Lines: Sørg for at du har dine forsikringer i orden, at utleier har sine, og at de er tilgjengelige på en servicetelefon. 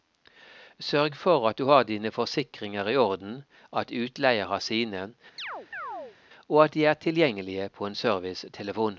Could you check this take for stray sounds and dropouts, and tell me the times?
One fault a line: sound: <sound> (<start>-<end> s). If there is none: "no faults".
sound: chirp (5.4-6.2 s)